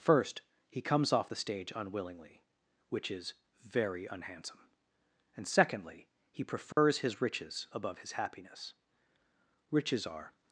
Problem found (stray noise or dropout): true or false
true